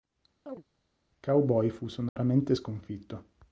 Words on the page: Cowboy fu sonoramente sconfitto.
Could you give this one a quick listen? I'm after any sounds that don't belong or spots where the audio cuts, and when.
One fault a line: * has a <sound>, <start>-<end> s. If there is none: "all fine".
* has a chirp, 0.5-0.6 s
* has a dropout, 2.1-2.2 s